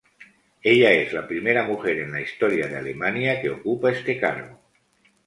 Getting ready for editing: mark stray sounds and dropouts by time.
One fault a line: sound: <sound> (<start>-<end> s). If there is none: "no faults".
no faults